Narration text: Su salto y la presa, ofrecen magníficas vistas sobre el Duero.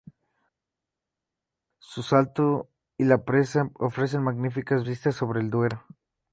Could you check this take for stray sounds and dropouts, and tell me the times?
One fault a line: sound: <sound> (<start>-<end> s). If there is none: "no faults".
no faults